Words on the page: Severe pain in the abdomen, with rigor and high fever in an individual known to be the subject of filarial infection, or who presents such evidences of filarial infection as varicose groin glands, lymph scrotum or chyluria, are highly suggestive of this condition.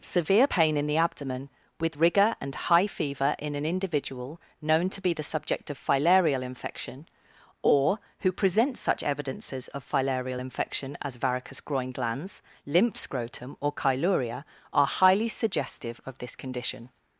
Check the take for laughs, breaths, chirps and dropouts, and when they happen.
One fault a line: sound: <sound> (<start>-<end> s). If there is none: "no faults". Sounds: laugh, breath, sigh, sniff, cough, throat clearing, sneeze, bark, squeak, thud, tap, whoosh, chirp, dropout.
no faults